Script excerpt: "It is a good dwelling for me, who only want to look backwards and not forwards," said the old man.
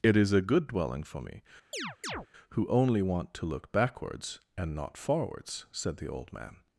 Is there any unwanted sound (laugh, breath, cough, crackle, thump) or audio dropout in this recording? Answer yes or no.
yes